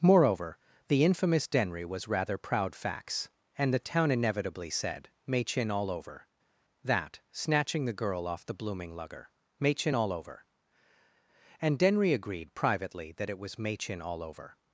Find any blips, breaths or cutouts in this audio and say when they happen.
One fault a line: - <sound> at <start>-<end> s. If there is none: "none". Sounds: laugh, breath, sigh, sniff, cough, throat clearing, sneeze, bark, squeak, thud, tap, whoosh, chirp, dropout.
none